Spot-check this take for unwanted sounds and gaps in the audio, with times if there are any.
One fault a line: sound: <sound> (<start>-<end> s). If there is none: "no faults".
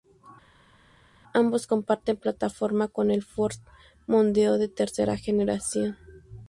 no faults